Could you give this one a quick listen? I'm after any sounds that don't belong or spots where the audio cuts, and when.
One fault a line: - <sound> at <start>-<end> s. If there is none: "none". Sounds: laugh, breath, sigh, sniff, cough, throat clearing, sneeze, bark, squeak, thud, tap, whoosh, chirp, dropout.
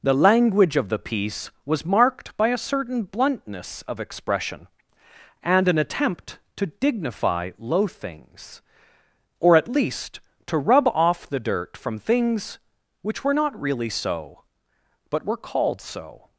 none